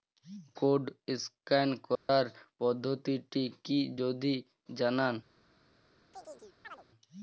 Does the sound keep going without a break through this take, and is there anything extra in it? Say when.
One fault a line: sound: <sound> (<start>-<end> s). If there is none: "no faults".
sound: dropout (2.0-2.1 s)
sound: chirp (6.1-6.8 s)